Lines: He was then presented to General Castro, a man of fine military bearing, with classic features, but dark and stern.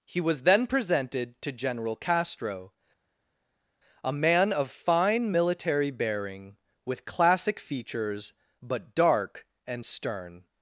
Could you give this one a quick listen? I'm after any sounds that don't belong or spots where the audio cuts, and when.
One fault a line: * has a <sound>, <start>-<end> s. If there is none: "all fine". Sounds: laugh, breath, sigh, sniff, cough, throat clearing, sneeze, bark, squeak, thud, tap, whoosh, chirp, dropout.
all fine